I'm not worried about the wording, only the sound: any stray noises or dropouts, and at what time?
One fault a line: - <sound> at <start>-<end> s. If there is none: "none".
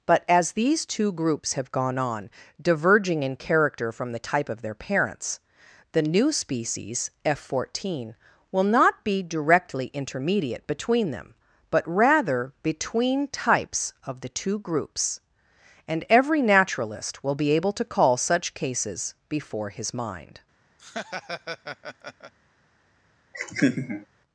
- laugh at 20.8-22.3 s
- laugh at 23.3-24.1 s